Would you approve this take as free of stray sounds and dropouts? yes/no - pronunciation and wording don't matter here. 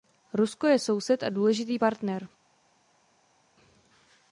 yes